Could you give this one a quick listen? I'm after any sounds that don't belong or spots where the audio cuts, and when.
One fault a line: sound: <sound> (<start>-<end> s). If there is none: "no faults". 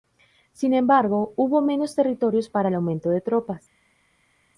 no faults